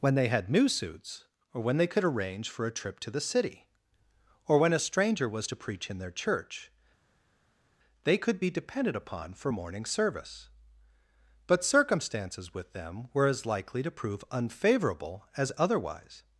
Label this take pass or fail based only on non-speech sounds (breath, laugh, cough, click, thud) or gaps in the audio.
pass